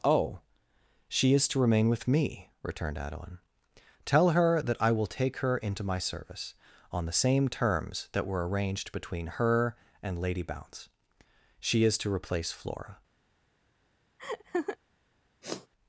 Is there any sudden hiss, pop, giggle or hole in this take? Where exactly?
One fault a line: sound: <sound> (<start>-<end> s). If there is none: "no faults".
sound: laugh (14.2-14.8 s)
sound: sniff (15.4-15.7 s)